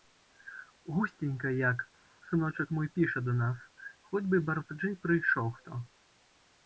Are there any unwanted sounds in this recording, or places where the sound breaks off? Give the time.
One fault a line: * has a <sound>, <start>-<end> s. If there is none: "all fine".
all fine